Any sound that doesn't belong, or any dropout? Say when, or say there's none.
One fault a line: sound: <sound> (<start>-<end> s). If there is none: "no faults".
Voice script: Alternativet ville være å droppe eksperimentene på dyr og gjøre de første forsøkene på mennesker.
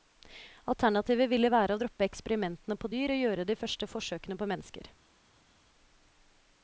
no faults